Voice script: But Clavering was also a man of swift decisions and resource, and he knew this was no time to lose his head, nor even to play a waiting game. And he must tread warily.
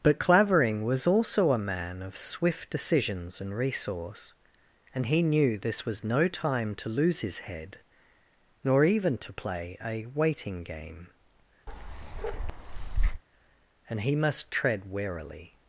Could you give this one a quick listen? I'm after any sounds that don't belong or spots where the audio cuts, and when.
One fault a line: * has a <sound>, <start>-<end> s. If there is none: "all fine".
* has a bark, 11.7-13.2 s